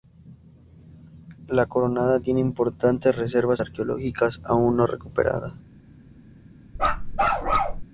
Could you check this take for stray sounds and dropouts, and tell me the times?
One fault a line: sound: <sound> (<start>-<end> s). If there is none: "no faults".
sound: bark (6.8-7.8 s)